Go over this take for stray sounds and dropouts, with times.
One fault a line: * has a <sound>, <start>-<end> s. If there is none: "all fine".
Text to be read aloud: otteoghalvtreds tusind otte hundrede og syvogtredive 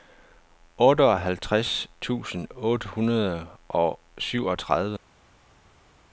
all fine